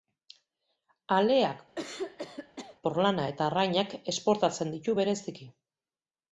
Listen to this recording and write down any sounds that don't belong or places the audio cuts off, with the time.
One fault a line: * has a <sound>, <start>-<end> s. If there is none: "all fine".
* has a throat clearing, 1.8-2.8 s